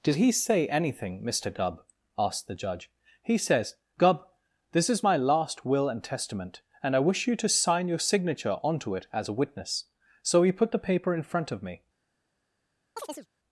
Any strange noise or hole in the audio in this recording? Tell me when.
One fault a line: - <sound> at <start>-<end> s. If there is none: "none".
- chirp at 13.0-13.3 s